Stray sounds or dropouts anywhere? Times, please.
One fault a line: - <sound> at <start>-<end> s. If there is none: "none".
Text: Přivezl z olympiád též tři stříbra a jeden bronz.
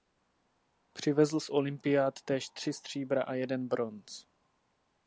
none